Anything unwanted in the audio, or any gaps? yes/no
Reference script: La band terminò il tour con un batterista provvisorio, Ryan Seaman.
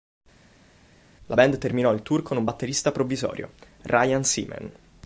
no